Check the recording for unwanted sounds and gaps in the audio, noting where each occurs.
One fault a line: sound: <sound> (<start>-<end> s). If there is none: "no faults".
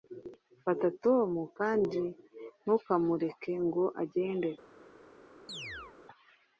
sound: chirp (5.5-6.0 s)